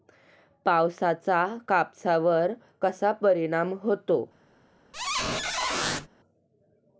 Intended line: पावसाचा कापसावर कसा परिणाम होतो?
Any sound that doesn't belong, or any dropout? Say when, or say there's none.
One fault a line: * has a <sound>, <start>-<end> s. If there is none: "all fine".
* has a squeak, 4.9-6.1 s